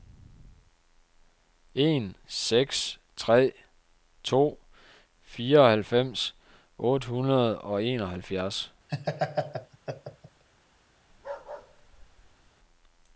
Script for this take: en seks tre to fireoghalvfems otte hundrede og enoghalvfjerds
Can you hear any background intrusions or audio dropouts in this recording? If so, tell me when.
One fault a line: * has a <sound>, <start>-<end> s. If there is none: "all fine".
* has a laugh, 8.9-10.4 s
* has a bark, 11.1-12.5 s